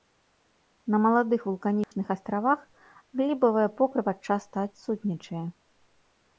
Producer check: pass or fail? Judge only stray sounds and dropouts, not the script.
fail